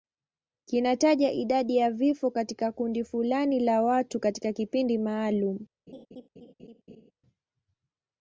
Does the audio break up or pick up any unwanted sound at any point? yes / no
yes